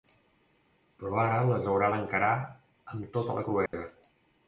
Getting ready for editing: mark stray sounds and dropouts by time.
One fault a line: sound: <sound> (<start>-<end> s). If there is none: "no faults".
sound: dropout (3.7-3.7 s)